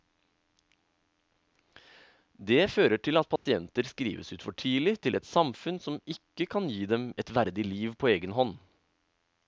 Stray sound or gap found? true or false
true